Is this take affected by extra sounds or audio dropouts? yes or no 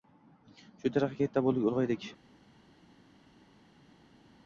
no